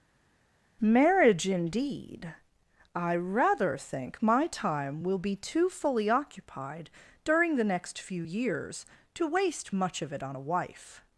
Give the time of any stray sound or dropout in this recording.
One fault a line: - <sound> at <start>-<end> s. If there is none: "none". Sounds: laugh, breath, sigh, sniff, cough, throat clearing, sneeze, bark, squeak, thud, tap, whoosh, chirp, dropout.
none